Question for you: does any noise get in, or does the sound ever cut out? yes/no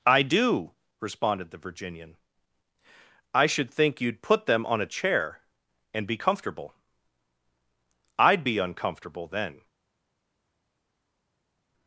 no